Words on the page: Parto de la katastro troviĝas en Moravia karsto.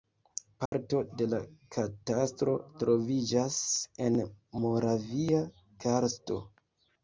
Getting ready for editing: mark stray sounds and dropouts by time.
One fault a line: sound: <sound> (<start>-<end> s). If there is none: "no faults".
sound: dropout (0.7-0.7 s)